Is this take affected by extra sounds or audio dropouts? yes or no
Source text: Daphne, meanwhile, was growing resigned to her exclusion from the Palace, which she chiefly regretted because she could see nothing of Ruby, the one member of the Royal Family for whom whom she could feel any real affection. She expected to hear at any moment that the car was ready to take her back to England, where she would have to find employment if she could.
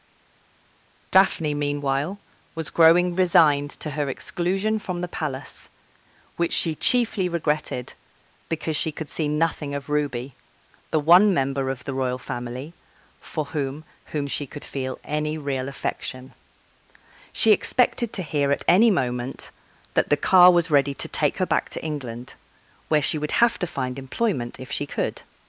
no